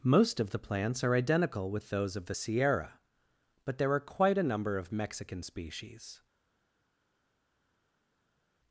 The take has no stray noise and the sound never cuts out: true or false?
true